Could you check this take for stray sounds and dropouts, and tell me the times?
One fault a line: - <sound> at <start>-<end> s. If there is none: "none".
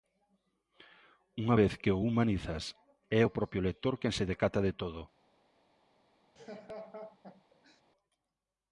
- laugh at 6.4-7.8 s